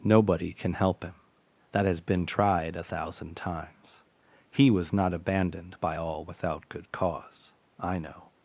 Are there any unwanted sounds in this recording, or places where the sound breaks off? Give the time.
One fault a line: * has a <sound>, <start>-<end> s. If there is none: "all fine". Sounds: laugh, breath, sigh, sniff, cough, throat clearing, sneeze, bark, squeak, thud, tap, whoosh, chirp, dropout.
all fine